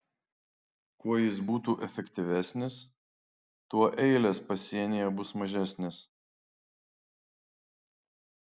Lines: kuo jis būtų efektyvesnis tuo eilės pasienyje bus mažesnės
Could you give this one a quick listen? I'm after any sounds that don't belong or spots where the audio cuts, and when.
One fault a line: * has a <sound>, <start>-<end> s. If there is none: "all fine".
all fine